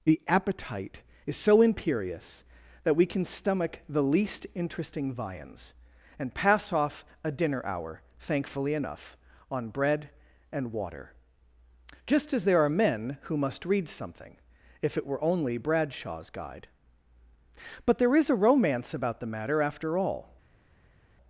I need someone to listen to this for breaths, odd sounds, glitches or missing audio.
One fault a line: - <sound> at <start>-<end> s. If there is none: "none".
none